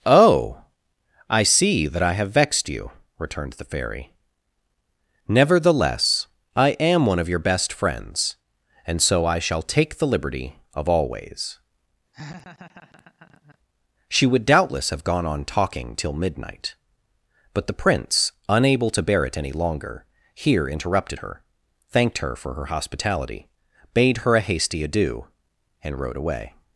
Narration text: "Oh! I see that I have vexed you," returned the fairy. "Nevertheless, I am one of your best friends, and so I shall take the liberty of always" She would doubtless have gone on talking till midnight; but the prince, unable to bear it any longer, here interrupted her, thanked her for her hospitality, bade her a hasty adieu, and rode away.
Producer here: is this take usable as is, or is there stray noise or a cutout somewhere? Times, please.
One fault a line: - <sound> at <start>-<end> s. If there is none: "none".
- laugh at 12.1-13.6 s